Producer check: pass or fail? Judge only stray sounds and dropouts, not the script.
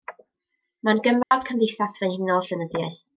fail